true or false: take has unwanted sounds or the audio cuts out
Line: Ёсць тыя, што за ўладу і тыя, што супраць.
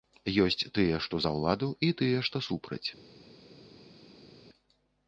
false